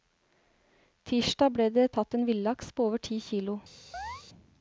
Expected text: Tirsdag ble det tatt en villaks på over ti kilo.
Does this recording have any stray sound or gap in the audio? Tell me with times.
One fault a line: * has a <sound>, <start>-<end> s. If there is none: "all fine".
* has a chirp, 3.9-4.2 s